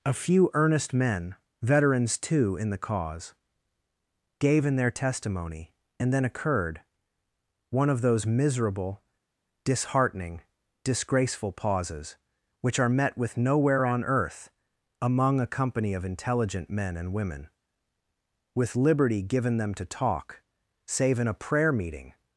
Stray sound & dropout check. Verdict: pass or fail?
pass